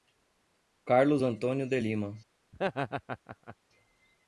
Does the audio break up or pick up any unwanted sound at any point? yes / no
yes